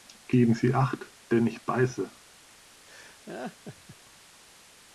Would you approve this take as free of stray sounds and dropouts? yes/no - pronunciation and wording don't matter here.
no